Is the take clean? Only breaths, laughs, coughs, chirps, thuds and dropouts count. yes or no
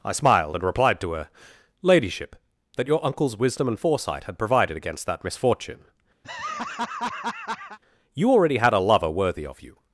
no